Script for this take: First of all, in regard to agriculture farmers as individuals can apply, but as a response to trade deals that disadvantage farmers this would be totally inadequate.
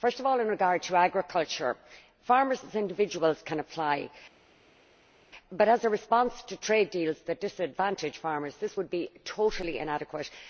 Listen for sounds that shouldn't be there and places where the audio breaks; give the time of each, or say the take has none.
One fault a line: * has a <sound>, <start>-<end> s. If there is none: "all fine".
all fine